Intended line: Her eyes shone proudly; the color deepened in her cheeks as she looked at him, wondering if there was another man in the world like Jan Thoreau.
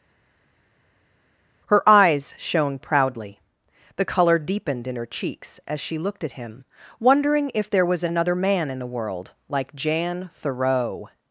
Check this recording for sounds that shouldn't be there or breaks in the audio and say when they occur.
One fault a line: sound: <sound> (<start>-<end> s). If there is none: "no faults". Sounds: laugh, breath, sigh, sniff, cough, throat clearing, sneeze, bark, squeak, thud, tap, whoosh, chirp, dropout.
no faults